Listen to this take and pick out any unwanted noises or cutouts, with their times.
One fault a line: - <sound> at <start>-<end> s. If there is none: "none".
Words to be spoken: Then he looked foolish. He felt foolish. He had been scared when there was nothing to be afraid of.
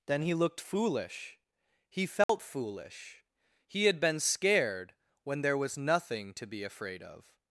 - dropout at 2.2-2.3 s